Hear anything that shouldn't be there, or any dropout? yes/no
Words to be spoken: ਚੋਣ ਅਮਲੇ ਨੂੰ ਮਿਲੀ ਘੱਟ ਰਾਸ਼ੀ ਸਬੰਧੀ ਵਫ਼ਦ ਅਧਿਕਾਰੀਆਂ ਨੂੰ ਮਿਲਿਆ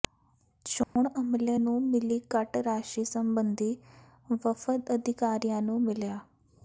yes